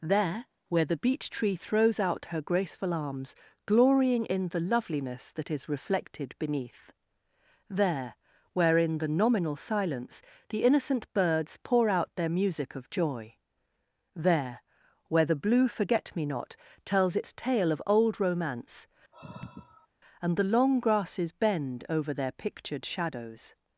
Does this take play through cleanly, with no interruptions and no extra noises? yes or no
no